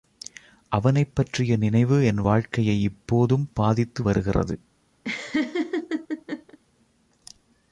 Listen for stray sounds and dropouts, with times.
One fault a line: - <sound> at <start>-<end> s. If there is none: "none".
- laugh at 5.0-6.6 s